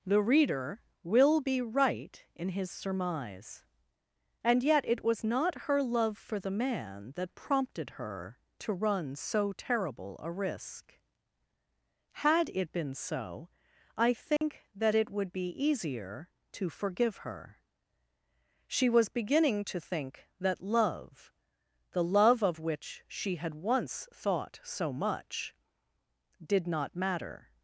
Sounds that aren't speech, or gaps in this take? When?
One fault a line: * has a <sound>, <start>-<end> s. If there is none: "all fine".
* has a dropout, 14.4-14.4 s